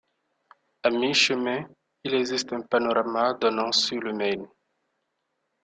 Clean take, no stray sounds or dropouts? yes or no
yes